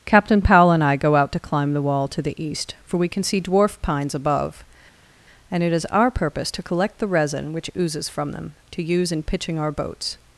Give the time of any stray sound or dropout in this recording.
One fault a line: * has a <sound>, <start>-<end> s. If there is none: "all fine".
all fine